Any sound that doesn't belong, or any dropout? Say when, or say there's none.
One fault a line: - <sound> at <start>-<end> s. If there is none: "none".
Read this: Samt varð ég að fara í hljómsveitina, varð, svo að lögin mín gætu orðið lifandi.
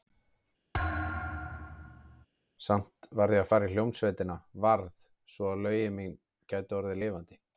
- thud at 0.7-2.3 s